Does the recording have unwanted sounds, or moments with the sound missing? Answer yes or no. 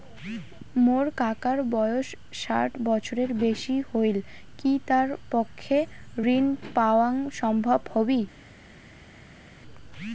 no